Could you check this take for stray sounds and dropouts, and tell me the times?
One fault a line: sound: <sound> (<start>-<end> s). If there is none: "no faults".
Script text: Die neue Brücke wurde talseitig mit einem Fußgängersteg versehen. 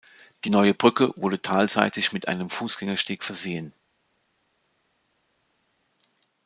no faults